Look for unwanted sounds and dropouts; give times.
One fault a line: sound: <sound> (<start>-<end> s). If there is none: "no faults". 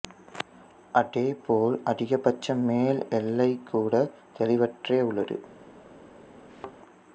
sound: thud (6.5-6.8 s)